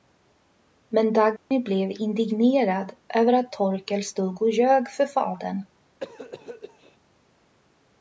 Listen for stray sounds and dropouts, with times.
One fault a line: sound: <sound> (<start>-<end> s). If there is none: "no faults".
sound: dropout (1.4-1.5 s)
sound: cough (6.0-7.0 s)